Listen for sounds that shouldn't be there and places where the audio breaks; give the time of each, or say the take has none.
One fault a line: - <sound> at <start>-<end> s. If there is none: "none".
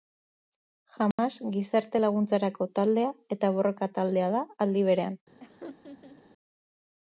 - dropout at 1.1-1.2 s
- laugh at 5.4-6.2 s